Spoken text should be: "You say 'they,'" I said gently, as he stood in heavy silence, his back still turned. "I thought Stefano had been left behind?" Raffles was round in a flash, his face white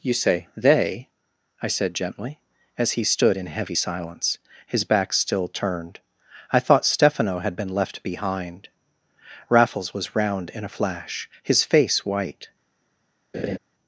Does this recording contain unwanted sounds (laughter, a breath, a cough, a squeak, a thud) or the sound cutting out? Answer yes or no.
yes